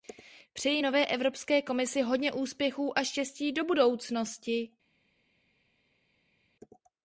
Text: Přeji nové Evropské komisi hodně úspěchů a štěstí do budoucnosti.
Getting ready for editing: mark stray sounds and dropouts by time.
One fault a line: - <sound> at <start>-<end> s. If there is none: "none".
none